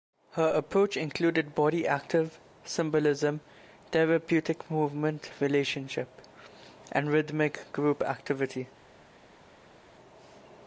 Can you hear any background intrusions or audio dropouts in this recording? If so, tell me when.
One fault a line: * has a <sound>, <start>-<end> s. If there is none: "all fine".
all fine